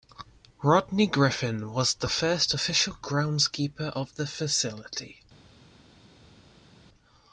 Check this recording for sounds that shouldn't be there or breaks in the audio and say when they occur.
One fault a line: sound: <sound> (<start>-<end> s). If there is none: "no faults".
no faults